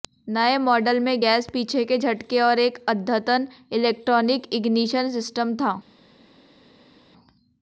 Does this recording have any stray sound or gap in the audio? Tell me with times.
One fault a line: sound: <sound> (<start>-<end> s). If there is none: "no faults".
no faults